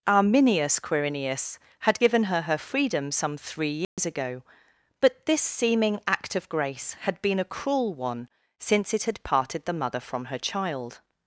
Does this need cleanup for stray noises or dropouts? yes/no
yes